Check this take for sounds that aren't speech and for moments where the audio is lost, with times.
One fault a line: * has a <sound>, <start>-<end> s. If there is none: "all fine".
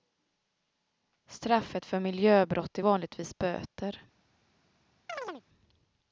* has a chirp, 5.1-5.4 s